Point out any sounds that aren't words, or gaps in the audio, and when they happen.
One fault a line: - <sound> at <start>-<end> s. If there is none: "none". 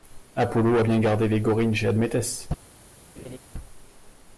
- laugh at 3.2-3.4 s